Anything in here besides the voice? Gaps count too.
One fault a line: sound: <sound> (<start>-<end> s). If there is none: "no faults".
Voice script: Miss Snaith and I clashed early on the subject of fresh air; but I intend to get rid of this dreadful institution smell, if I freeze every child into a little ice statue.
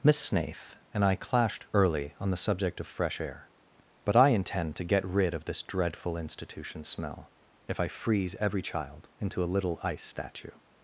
no faults